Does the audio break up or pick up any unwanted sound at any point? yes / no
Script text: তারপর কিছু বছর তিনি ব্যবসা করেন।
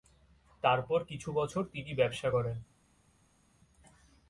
no